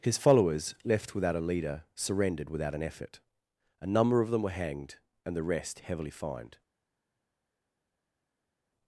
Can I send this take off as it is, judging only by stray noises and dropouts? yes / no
yes